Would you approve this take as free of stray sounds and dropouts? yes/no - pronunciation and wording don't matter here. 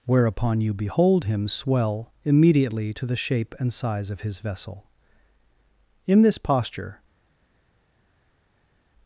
yes